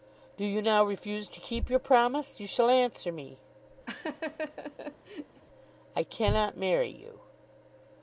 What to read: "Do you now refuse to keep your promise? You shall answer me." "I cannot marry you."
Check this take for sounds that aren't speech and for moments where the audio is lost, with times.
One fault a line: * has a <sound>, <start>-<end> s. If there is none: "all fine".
* has a laugh, 3.9-5.4 s